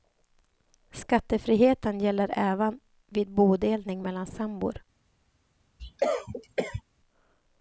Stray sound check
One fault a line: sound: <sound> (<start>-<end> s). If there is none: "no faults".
sound: cough (5.8-6.8 s)